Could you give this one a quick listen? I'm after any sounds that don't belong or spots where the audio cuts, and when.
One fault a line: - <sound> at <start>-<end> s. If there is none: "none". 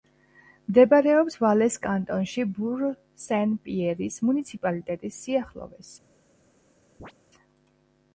- chirp at 7.0-7.1 s